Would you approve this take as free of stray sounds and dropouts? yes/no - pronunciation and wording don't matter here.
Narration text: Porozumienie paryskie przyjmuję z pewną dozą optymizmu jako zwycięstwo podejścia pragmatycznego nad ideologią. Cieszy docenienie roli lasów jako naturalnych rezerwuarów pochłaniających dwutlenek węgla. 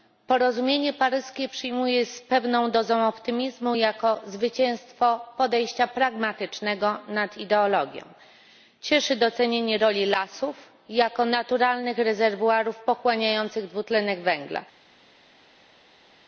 yes